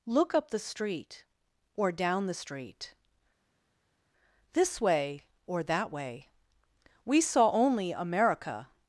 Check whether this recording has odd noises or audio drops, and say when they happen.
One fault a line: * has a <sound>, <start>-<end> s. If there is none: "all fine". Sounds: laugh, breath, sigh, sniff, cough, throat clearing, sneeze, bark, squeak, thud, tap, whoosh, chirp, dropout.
all fine